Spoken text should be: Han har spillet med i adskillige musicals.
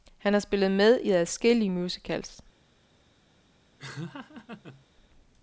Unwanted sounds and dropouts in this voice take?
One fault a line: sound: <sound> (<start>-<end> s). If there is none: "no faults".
sound: laugh (3.8-4.9 s)